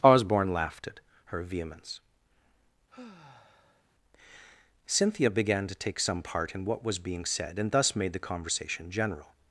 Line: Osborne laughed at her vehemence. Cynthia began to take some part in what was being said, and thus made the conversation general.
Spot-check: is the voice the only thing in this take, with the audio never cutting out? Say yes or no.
no